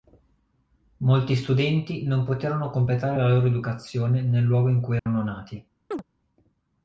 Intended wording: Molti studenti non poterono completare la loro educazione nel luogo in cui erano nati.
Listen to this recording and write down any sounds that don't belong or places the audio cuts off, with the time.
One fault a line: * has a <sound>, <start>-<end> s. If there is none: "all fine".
* has a dropout, 5.0-5.1 s
* has a chirp, 5.9-6.0 s